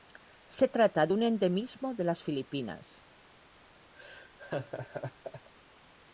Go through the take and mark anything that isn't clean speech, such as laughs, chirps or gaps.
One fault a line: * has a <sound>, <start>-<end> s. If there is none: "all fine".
* has a laugh, 3.9-5.5 s